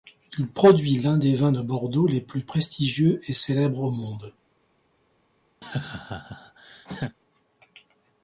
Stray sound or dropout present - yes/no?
yes